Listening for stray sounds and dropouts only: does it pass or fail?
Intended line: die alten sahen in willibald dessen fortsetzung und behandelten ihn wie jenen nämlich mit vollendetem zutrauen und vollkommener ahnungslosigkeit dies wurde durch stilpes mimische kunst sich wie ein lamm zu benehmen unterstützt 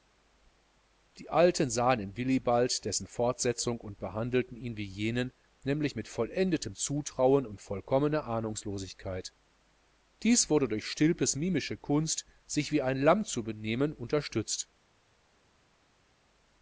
pass